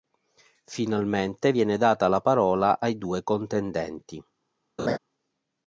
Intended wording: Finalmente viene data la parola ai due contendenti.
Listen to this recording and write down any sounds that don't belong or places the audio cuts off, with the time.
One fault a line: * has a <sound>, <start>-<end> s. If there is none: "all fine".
* has a laugh, 4.8-5.0 s